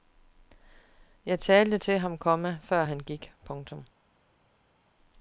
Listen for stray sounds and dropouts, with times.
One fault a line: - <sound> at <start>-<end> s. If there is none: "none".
none